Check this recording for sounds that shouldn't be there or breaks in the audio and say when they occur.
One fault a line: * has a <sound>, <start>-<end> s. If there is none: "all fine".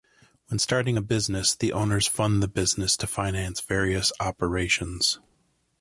all fine